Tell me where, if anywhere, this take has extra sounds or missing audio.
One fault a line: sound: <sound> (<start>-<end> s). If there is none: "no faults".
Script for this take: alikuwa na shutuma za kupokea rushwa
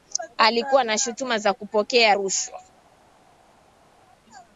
no faults